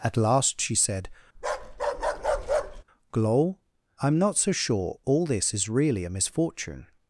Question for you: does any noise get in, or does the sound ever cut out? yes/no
yes